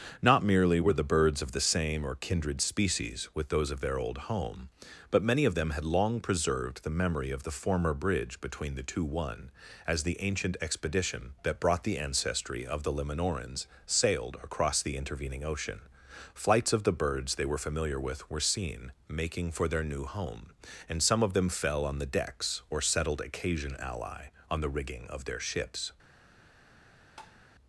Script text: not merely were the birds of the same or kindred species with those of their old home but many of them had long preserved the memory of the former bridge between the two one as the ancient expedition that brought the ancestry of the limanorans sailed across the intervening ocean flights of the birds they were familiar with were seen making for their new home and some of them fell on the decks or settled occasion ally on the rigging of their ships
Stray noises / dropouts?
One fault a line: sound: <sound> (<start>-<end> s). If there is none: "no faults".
sound: tap (27.2-27.4 s)